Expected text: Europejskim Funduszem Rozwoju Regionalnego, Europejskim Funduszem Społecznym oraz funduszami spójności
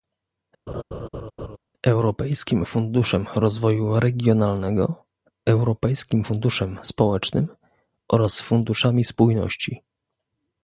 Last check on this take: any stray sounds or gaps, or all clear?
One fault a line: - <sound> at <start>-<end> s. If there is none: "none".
- laugh at 0.7-1.6 s